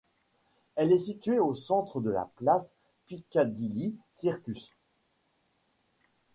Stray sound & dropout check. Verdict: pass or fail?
pass